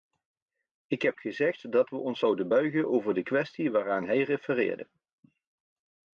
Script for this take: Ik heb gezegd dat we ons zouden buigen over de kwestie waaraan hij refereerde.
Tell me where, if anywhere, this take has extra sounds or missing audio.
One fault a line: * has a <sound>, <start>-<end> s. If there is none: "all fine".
all fine